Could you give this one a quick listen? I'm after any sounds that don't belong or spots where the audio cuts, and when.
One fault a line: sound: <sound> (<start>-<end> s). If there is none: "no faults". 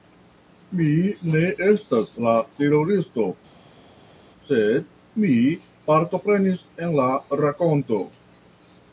no faults